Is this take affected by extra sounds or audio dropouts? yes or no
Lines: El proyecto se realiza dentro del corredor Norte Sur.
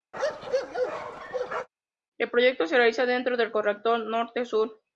yes